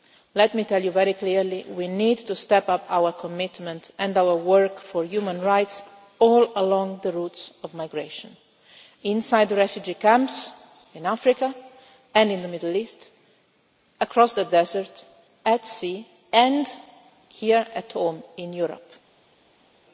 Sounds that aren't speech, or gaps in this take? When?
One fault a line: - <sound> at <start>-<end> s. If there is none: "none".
none